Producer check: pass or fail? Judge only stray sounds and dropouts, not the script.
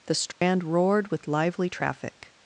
fail